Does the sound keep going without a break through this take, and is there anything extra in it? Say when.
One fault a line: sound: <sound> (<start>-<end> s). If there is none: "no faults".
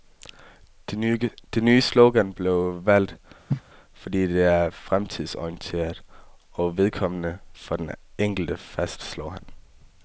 sound: cough (3.5-3.6 s)